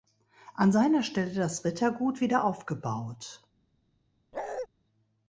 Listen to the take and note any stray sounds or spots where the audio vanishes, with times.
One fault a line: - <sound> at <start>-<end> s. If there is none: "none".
- bark at 4.3-4.7 s